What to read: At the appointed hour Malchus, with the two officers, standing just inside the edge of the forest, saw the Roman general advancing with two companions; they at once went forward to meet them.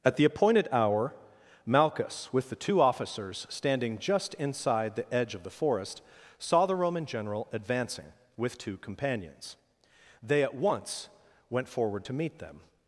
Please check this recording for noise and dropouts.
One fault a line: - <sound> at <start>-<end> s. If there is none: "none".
none